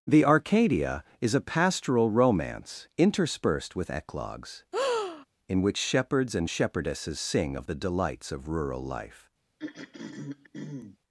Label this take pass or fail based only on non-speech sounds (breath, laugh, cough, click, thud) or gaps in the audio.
fail